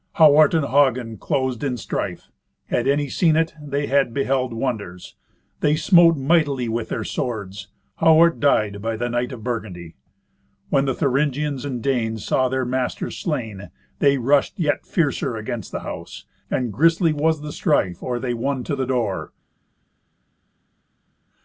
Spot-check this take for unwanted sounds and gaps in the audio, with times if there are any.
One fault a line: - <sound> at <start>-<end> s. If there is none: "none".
none